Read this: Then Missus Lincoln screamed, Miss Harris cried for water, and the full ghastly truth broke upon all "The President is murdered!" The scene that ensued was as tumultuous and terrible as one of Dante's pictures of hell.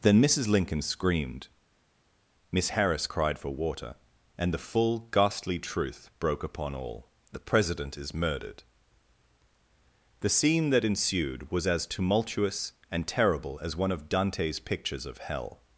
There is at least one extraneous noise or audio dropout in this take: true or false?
false